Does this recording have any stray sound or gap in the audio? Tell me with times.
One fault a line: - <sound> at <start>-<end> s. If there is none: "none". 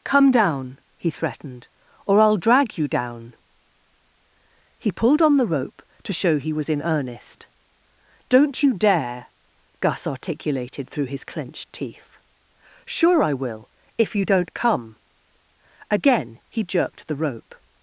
none